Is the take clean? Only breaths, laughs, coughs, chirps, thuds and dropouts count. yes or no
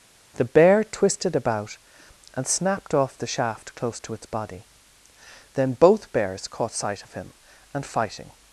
yes